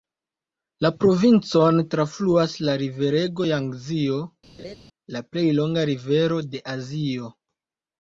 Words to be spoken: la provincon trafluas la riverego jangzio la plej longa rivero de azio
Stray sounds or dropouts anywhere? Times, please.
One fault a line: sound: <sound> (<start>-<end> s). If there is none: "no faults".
sound: laugh (4.6-4.8 s)